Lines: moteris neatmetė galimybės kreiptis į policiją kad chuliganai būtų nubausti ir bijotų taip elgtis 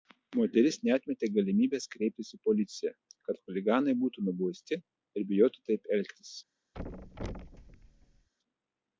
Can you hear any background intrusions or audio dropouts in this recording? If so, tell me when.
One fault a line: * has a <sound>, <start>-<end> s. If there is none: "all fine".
* has a thud, 6.7-8.3 s